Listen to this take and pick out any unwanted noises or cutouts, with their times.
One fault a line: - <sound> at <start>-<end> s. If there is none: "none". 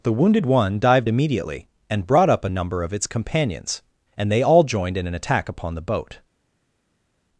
none